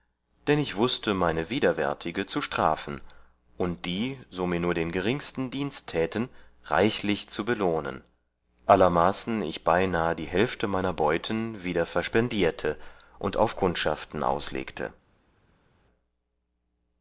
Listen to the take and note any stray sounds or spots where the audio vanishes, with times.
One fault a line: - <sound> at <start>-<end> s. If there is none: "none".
none